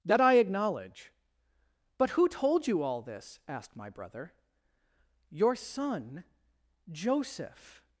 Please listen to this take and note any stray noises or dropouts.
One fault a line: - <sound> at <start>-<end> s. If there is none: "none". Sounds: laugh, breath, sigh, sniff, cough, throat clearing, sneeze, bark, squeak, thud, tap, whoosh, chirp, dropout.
none